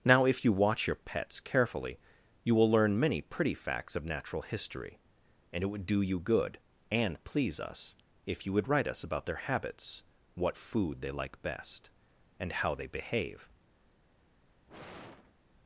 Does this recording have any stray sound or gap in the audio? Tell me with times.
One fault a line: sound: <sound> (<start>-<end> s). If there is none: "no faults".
sound: sigh (14.7-15.3 s)